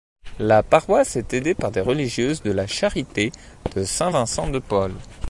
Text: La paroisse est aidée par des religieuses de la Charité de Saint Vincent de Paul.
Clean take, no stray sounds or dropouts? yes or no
yes